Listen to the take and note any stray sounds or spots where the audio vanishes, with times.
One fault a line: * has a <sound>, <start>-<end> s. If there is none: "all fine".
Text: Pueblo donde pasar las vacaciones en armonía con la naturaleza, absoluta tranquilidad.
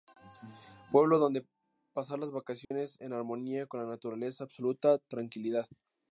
* has a dropout, 2.6-2.7 s